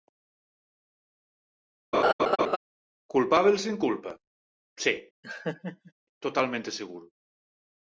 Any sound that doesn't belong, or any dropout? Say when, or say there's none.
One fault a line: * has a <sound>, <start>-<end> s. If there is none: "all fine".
* has a laugh, 1.9-2.6 s
* has a laugh, 5.2-5.9 s